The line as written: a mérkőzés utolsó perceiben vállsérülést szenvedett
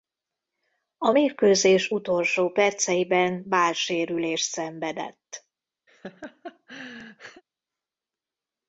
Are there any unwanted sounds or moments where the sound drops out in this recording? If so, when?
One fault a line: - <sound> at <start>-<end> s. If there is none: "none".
- laugh at 5.9-7.4 s